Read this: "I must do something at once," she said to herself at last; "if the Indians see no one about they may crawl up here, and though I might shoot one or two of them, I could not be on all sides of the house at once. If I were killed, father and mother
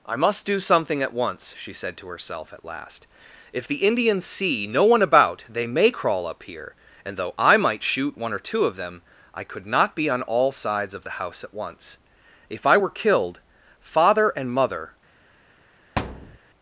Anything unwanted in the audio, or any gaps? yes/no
yes